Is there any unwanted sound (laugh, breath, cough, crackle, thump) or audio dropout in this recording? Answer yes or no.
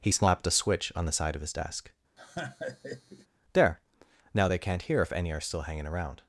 yes